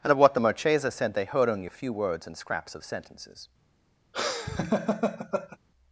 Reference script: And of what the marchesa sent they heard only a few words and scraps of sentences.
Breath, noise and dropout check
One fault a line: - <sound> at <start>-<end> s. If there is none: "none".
- laugh at 4.1-5.6 s